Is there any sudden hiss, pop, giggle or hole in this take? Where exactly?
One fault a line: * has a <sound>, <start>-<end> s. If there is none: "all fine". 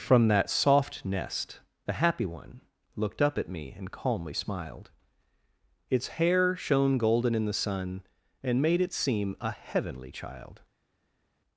all fine